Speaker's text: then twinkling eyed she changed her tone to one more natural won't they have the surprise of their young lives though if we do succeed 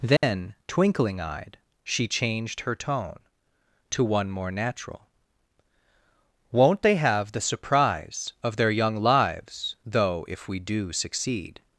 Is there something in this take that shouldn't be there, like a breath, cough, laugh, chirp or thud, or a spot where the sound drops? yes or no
yes